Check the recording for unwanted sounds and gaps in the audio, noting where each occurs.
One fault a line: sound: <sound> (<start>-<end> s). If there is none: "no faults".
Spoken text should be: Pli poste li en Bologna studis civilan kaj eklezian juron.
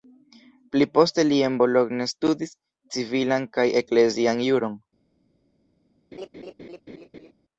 sound: laugh (6.1-7.3 s)